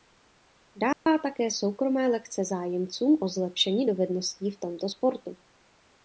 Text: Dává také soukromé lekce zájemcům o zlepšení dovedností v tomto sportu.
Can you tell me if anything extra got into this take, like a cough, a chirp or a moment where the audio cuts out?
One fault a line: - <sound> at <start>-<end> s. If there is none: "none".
- dropout at 0.9-1.1 s